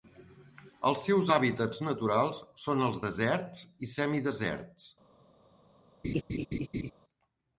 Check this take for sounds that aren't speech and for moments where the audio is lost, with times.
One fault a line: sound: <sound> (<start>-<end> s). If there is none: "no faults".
sound: laugh (6.0-6.9 s)